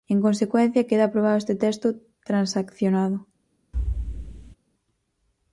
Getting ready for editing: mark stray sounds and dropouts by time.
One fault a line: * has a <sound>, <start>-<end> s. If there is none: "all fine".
* has a thud, 3.7-4.6 s